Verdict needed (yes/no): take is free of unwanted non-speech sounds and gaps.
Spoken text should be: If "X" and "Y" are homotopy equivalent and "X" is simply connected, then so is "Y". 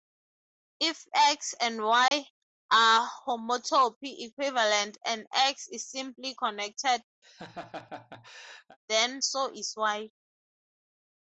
no